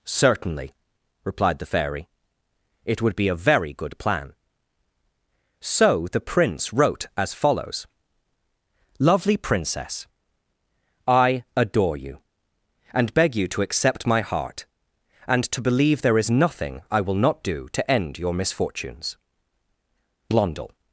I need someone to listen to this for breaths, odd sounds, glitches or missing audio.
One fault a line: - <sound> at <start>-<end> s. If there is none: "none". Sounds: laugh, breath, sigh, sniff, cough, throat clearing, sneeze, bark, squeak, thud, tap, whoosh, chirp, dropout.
none